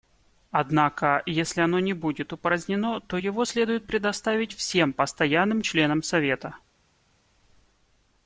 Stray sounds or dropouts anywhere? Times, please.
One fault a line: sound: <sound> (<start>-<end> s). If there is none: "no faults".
no faults